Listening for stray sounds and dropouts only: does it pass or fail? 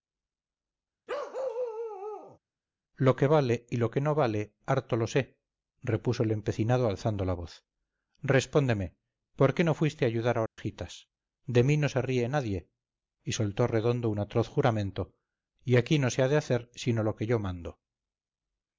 fail